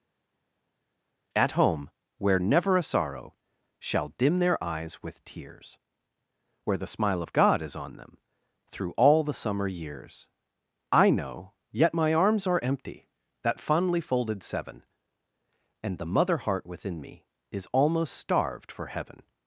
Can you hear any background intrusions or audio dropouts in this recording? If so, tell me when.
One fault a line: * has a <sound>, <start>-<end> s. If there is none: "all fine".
all fine